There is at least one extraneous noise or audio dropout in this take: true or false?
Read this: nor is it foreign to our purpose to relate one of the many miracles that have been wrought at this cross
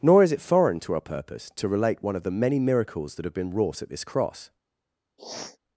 true